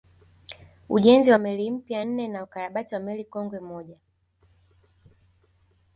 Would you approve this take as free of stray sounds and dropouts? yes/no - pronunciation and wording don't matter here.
yes